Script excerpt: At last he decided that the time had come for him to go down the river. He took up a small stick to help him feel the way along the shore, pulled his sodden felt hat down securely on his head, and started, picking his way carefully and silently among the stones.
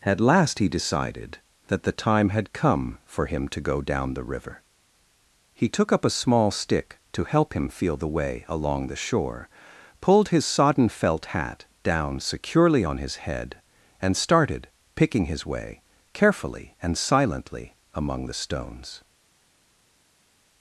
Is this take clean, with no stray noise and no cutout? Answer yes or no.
yes